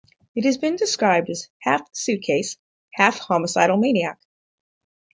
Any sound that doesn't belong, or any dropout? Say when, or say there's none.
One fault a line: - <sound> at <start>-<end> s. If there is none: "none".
none